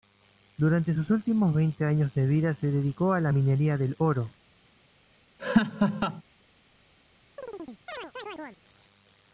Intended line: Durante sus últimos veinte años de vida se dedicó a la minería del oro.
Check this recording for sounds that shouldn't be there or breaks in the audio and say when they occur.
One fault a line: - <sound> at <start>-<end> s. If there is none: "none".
- laugh at 5.4-6.2 s
- chirp at 7.4-8.6 s